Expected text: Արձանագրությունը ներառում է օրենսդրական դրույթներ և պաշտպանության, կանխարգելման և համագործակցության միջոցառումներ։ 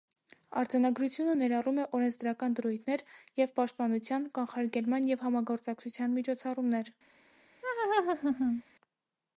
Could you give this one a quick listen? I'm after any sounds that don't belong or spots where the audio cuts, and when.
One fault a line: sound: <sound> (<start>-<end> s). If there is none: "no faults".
sound: laugh (7.6-8.6 s)